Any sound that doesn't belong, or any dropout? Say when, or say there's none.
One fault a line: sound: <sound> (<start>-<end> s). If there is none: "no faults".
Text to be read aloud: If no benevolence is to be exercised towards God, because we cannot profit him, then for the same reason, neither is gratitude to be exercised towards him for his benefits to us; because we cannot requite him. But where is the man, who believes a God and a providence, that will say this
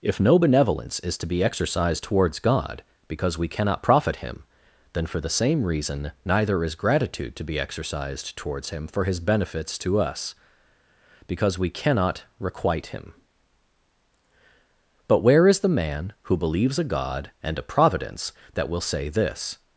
no faults